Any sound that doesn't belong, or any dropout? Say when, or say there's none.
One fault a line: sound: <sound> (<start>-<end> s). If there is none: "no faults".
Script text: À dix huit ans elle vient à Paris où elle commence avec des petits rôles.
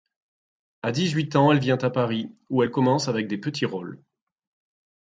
no faults